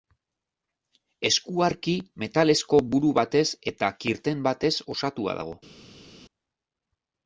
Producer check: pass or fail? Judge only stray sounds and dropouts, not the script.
pass